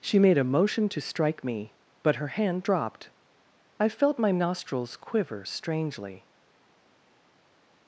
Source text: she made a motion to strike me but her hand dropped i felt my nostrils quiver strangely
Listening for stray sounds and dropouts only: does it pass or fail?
pass